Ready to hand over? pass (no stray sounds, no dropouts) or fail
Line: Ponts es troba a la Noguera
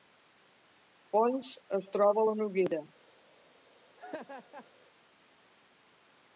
fail